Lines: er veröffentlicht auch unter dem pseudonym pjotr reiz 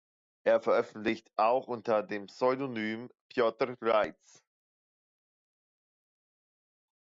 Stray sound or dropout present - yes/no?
no